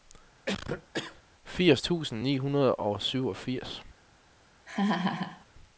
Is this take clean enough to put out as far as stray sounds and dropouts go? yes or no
no